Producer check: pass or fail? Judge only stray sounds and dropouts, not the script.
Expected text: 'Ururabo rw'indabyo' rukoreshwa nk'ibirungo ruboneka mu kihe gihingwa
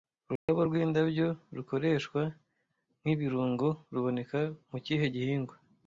fail